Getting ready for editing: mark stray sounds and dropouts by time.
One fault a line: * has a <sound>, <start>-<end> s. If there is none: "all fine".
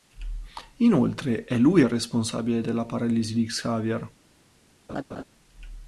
* has a laugh, 4.9-5.2 s